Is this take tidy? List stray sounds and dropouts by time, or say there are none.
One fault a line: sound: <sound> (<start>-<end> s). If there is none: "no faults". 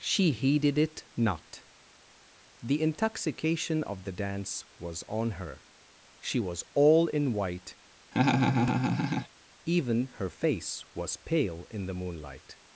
sound: laugh (8.1-9.3 s)